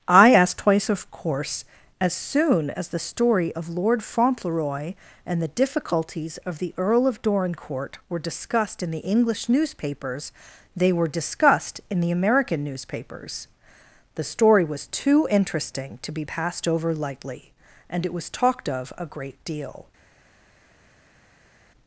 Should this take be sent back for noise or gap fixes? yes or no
no